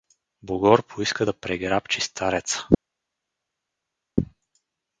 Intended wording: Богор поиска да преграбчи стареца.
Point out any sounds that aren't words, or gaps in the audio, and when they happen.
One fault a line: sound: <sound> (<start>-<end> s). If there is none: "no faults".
no faults